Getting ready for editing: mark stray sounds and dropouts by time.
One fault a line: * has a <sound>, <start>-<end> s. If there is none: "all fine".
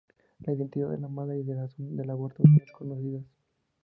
all fine